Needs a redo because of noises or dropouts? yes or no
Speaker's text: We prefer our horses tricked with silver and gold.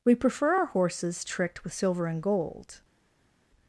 no